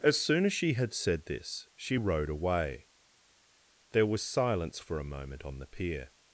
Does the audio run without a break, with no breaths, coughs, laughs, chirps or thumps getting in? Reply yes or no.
yes